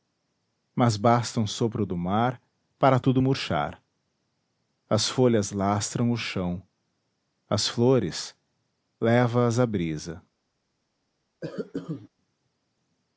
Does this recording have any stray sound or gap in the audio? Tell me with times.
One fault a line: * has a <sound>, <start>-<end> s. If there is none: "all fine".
* has a cough, 11.4-12.1 s